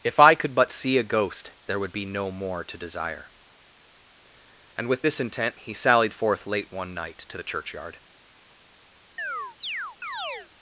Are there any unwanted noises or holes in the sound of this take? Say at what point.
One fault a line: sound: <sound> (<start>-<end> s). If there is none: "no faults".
sound: chirp (9.2-10.5 s)